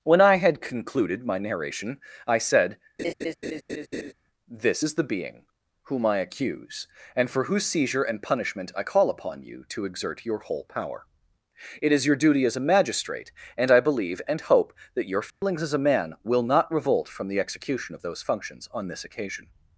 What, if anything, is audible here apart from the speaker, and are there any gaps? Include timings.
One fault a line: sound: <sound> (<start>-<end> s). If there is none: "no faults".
sound: laugh (3.0-4.1 s)
sound: dropout (15.3-15.4 s)